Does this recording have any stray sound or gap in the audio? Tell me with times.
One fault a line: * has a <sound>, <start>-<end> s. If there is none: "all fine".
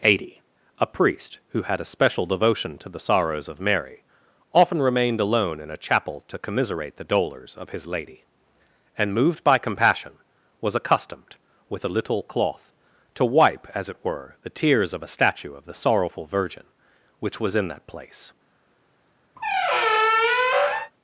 * has a squeak, 19.4-20.9 s